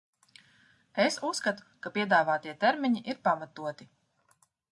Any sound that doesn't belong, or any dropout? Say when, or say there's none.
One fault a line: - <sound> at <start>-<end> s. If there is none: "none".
none